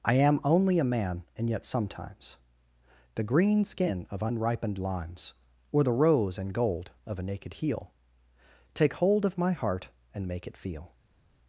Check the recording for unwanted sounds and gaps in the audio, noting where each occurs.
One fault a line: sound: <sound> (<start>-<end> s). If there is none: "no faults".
no faults